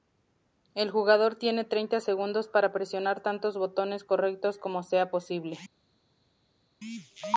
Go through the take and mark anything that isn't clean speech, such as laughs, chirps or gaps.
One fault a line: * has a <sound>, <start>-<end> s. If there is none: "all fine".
all fine